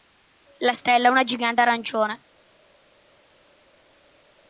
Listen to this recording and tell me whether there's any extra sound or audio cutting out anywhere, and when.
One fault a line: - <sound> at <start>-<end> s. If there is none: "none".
none